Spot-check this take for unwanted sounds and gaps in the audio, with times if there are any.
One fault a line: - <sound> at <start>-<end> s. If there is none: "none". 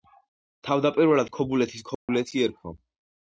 - dropout at 2.0-2.1 s